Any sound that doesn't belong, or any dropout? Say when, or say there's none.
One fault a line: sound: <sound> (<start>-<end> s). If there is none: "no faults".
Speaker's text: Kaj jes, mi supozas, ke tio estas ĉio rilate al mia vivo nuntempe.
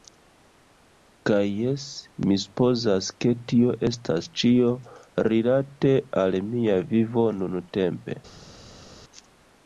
no faults